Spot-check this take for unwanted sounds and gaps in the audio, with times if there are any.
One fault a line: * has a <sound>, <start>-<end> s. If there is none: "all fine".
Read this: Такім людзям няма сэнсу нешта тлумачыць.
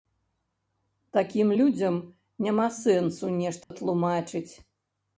* has a dropout, 3.6-3.7 s